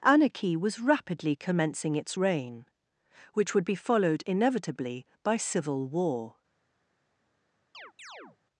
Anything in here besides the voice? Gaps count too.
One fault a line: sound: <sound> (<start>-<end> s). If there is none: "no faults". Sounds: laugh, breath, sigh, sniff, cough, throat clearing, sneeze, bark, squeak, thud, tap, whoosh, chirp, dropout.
sound: chirp (7.7-8.4 s)